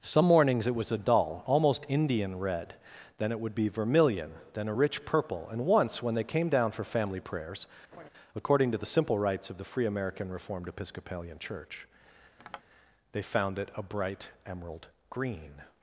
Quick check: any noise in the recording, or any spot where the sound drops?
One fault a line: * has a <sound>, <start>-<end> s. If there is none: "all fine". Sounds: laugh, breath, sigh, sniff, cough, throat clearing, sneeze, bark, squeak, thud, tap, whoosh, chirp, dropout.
* has a laugh, 7.9-8.1 s
* has a tap, 12.4-12.6 s